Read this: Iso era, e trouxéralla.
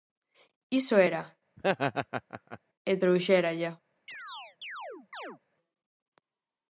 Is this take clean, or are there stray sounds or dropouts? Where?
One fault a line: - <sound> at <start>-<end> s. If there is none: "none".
- laugh at 1.6-2.6 s
- chirp at 4.1-5.4 s